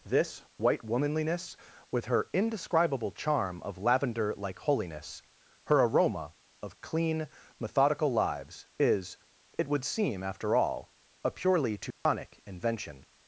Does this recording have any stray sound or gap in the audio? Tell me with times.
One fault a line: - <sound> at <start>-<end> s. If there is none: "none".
- dropout at 11.9-12.1 s